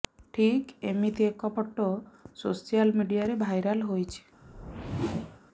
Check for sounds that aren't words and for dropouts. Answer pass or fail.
fail